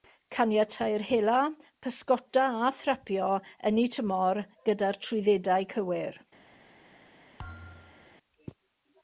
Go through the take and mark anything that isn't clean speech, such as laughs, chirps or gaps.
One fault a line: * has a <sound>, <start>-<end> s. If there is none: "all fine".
* has a thud, 7.4-8.2 s